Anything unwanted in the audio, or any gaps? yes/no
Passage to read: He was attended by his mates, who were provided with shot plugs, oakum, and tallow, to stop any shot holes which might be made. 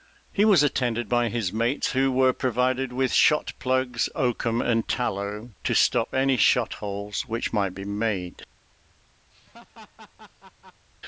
yes